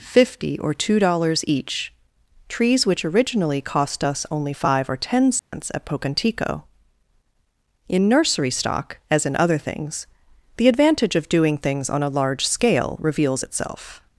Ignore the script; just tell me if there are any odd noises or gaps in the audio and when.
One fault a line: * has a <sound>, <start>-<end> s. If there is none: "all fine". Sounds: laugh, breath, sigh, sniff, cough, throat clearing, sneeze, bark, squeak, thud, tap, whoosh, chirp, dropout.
* has a dropout, 5.4-5.5 s